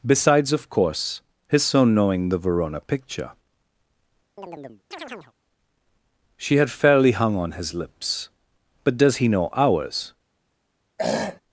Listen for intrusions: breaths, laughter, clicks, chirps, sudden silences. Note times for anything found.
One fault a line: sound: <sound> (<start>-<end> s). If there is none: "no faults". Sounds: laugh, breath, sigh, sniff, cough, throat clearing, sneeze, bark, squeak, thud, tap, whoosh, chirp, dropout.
sound: chirp (4.4-5.3 s)
sound: throat clearing (11.0-11.4 s)